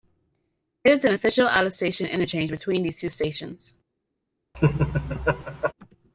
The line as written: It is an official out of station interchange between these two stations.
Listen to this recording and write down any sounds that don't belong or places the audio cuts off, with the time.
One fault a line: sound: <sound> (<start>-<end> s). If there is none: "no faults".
sound: laugh (4.5-5.7 s)